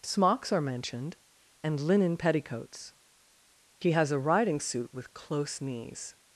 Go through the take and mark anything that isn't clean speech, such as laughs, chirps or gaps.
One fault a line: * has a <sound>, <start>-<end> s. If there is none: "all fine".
all fine